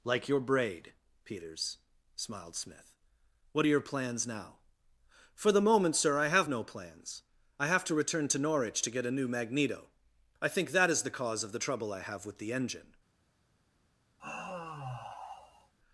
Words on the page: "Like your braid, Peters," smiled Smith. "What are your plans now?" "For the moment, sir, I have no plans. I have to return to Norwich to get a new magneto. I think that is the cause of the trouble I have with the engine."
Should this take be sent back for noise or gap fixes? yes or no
yes